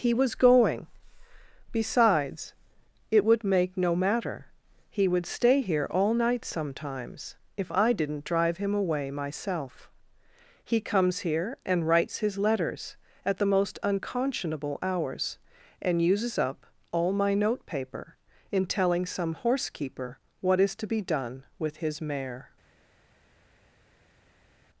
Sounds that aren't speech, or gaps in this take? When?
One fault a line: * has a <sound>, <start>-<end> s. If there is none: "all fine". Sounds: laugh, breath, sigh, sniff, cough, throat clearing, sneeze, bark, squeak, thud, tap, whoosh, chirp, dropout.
all fine